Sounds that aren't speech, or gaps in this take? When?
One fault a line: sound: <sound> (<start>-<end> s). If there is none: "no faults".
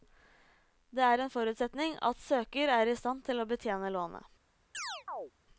sound: chirp (4.7-5.3 s)